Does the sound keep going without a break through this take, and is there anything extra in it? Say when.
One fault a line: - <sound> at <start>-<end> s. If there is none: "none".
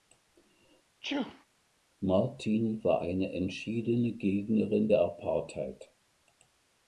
- sneeze at 1.0-1.5 s